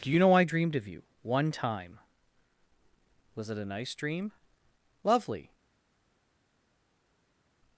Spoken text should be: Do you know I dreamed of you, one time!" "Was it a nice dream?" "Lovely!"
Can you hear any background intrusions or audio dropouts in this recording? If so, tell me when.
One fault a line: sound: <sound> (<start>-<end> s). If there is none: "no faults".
no faults